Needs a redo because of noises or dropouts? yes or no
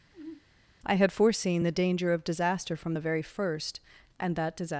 yes